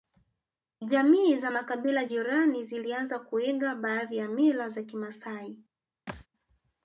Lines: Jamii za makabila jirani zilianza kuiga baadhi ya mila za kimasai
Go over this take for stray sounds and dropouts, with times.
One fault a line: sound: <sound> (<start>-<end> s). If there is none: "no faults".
sound: thud (6.1-6.3 s)